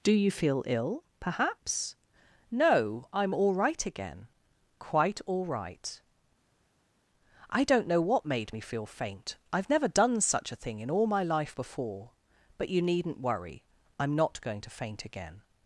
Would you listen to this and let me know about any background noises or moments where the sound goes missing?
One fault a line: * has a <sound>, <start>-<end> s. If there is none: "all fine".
all fine